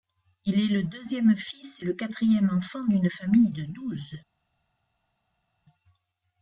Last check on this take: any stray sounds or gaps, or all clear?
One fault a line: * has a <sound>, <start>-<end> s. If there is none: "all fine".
all fine